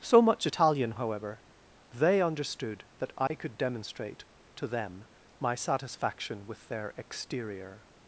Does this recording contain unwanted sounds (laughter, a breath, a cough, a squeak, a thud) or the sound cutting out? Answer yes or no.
yes